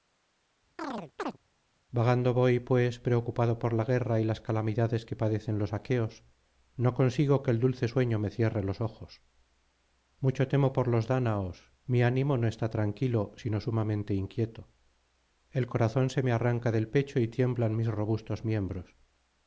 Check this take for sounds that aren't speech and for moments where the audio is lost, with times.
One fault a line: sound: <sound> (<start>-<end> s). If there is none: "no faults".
sound: chirp (0.8-1.4 s)